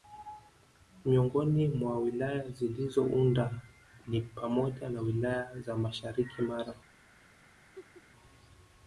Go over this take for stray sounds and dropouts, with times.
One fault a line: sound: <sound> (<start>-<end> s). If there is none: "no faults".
sound: laugh (7.7-8.0 s)